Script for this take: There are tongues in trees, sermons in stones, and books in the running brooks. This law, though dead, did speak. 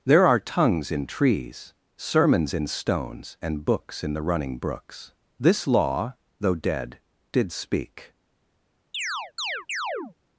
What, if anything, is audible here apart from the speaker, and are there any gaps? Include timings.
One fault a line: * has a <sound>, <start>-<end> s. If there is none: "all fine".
* has a chirp, 8.9-10.2 s